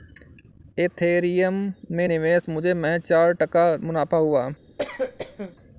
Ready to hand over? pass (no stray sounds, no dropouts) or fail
fail